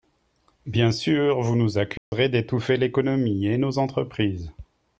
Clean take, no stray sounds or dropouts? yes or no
no